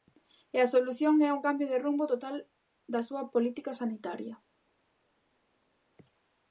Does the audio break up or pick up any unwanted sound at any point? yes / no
no